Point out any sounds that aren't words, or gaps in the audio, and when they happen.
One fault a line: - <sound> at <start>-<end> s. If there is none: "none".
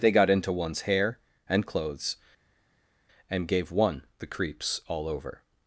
none